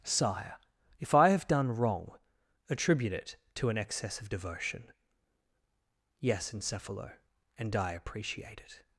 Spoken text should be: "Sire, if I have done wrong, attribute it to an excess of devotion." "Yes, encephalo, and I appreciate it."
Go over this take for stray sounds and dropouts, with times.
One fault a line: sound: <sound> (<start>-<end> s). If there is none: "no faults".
no faults